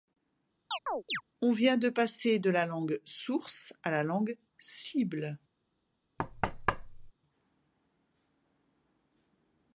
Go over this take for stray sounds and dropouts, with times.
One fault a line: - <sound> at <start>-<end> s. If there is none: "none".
- chirp at 0.7-1.2 s
- thud at 6.2-7.1 s